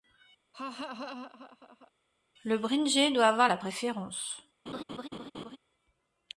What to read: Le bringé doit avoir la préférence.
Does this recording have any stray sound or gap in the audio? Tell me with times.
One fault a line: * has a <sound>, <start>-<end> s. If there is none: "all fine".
* has a laugh, 0.5-1.9 s
* has a laugh, 4.7-5.6 s